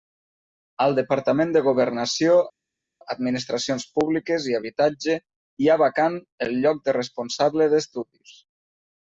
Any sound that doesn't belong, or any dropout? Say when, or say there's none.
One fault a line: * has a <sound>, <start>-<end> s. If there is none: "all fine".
all fine